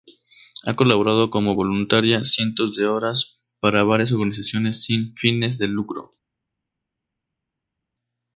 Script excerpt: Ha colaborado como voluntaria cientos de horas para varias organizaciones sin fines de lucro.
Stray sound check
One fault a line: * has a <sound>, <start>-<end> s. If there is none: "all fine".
all fine